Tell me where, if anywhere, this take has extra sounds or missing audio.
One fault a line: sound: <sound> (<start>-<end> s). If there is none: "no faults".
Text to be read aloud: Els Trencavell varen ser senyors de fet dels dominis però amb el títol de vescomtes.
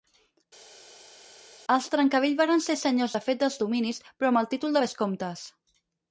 no faults